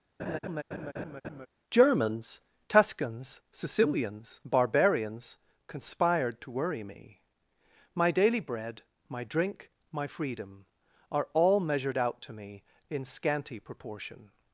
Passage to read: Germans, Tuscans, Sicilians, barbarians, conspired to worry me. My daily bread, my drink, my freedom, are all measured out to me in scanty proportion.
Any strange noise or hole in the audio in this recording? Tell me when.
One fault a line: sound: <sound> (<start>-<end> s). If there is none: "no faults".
sound: laugh (0.2-1.5 s)